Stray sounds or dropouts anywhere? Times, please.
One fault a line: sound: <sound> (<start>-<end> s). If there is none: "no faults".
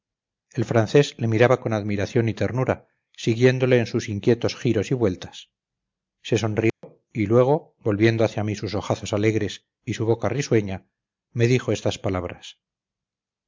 sound: dropout (6.7-6.8 s)